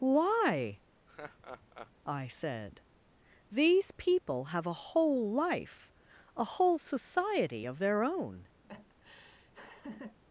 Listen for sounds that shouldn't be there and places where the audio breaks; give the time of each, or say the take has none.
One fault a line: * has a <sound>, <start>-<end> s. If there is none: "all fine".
* has a laugh, 1.1-1.9 s
* has a laugh, 8.6-10.2 s